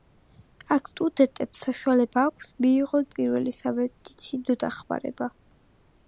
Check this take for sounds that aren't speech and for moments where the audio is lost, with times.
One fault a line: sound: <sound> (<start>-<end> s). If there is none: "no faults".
no faults